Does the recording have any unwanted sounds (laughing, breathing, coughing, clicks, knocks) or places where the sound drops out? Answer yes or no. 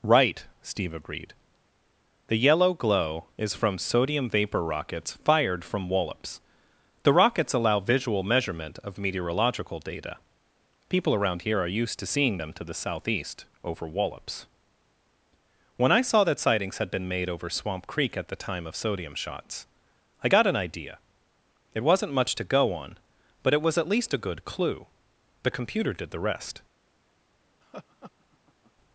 yes